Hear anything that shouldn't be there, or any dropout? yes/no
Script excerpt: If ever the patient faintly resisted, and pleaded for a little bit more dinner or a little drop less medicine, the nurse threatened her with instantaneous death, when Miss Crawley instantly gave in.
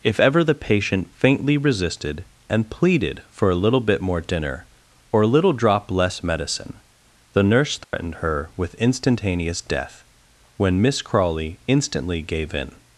yes